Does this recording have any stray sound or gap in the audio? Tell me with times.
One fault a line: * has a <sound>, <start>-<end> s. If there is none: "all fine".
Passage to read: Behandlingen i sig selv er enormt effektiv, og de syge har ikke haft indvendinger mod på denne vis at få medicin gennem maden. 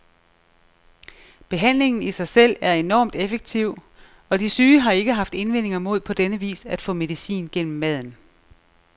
all fine